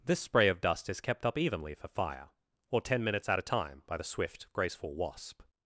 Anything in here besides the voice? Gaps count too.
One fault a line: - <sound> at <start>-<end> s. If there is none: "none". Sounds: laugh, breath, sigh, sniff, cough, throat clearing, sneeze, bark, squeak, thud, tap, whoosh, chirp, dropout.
none